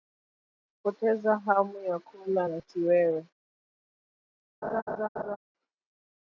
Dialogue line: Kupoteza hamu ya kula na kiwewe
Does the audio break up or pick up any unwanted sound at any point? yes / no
yes